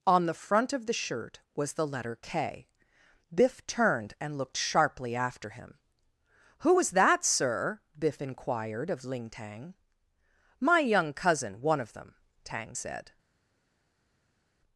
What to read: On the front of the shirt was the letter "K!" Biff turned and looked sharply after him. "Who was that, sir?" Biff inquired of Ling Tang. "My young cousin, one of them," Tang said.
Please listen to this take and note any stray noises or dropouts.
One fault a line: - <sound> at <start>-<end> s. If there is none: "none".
none